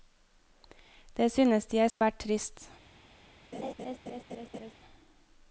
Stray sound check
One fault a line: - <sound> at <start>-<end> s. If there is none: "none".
- dropout at 1.9-2.0 s
- laugh at 3.5-4.7 s